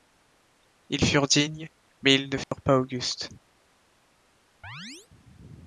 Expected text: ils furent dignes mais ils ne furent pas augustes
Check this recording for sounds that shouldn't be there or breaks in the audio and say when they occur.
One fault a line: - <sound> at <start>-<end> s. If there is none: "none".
- dropout at 2.4-2.5 s
- chirp at 4.6-5.1 s